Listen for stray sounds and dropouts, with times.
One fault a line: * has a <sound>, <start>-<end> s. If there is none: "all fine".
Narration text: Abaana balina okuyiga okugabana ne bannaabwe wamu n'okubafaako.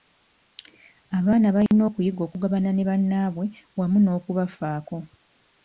* has a dropout, 1.7-1.7 s